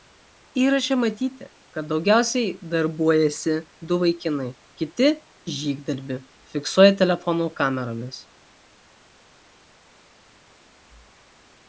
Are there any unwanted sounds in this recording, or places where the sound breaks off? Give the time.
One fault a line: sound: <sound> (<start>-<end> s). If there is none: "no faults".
no faults